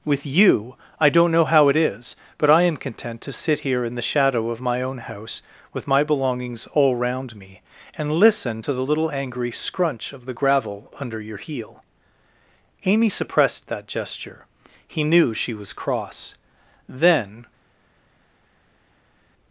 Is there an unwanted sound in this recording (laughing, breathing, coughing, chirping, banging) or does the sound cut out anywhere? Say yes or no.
no